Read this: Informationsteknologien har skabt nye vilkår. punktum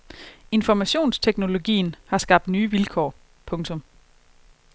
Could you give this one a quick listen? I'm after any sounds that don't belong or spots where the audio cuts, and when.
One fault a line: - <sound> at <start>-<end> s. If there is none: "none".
none